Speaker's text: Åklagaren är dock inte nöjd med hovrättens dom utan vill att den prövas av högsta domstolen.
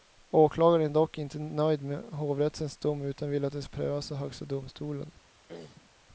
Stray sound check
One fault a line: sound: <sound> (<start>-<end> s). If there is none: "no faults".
sound: throat clearing (5.5-5.9 s)